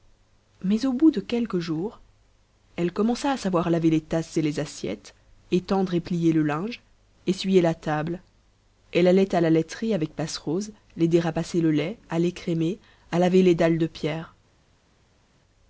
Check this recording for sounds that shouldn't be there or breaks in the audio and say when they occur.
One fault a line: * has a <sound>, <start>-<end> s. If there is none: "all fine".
all fine